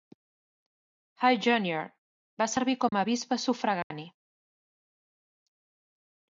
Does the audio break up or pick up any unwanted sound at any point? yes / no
yes